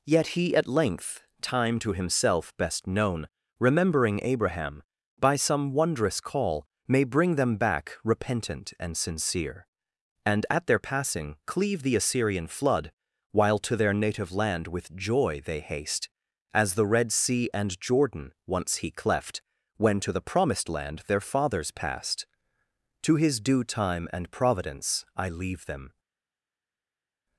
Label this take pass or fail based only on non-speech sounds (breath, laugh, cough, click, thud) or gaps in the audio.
pass